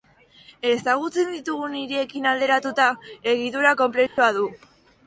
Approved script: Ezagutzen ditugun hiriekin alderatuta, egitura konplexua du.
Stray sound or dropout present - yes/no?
yes